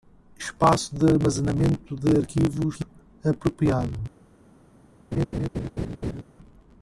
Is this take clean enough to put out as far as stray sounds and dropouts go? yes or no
no